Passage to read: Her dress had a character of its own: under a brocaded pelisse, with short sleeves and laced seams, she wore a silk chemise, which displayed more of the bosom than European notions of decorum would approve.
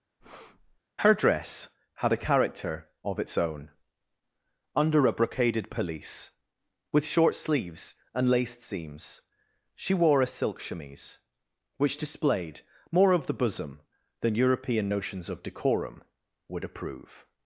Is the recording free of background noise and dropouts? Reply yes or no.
no